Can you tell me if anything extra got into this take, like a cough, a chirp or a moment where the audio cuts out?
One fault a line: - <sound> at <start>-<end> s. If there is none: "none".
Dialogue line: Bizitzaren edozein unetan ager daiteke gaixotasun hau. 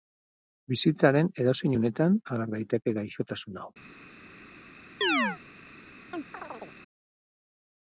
- chirp at 5.0-5.4 s
- chirp at 6.1-6.8 s